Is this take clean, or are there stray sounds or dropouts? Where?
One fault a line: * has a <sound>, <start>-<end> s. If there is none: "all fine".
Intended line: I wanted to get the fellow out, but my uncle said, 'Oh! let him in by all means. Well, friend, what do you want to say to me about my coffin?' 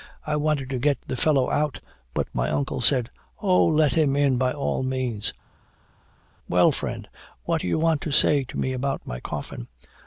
all fine